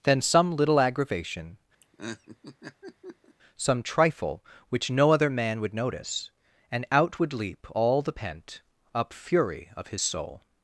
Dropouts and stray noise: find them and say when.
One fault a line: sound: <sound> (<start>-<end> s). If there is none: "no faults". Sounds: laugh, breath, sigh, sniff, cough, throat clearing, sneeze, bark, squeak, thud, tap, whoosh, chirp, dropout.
sound: laugh (1.8-3.4 s)